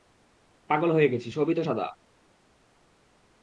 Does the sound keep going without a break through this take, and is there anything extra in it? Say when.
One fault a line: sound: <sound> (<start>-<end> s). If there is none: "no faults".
no faults